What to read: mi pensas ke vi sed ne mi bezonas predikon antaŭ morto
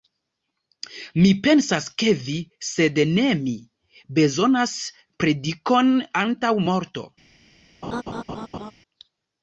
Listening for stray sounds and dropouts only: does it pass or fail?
fail